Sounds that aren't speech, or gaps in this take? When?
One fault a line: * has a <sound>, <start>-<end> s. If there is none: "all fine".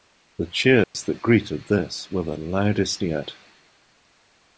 * has a dropout, 0.8-0.9 s